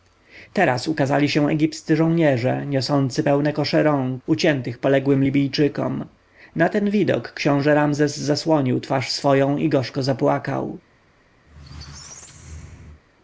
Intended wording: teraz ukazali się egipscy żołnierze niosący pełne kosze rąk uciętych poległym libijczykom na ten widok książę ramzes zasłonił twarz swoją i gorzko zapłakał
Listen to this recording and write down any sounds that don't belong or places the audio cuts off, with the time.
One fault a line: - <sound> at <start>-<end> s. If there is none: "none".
- squeak at 11.5-13.0 s